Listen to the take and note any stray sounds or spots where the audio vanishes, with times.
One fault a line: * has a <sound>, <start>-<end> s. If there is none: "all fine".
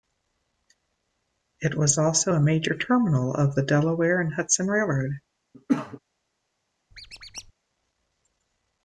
* has a cough, 5.5-6.0 s
* has a squeak, 6.9-7.5 s